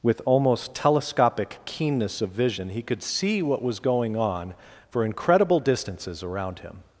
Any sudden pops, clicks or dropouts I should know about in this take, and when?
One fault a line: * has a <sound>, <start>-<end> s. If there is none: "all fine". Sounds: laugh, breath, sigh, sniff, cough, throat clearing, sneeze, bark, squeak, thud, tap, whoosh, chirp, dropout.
all fine